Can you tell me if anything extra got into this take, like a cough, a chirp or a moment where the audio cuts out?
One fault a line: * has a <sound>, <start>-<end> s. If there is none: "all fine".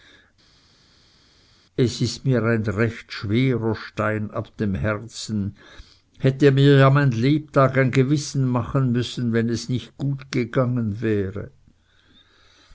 all fine